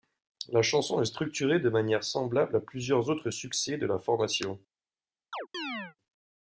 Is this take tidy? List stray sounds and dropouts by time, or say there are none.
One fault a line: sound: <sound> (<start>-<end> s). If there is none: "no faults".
sound: chirp (5.3-6.0 s)